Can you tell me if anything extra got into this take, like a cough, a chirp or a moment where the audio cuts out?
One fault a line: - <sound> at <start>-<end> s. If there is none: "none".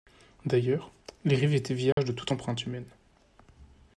- dropout at 1.9-2.0 s